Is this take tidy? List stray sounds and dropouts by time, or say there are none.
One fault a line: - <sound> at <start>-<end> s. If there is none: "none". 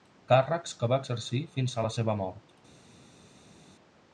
none